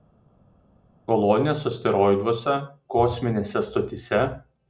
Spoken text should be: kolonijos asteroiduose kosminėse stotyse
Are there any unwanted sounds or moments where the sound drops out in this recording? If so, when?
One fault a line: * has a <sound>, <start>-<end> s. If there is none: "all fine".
all fine